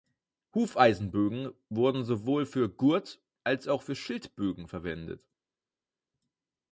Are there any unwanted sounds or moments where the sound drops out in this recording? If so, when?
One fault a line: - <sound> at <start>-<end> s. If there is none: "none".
none